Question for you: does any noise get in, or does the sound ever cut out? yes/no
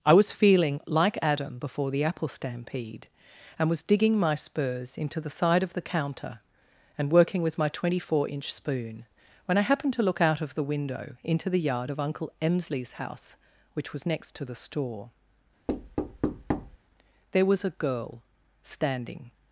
yes